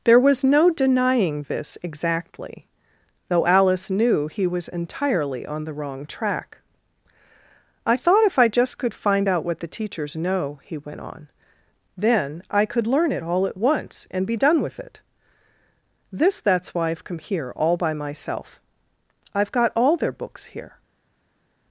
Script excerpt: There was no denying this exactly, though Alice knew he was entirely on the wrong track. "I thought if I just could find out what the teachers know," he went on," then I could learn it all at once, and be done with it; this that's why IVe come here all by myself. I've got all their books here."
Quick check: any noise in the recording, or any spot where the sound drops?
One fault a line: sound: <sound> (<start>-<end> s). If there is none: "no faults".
no faults